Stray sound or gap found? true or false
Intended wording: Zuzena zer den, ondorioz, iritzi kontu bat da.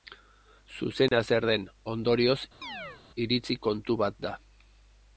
true